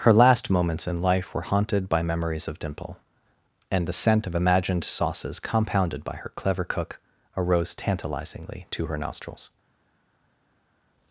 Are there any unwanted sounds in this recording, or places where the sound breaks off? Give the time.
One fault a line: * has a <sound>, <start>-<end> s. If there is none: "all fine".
all fine